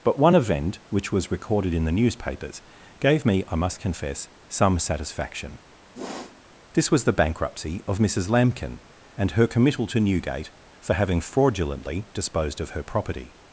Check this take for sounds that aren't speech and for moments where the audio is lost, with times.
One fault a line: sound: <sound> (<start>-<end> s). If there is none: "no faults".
sound: sniff (5.9-6.4 s)